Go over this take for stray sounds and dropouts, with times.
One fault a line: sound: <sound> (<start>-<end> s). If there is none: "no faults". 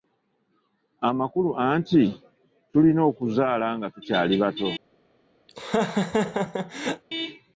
sound: laugh (5.5-7.0 s)